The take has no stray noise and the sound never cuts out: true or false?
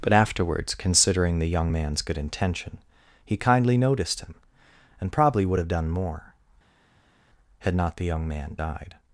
true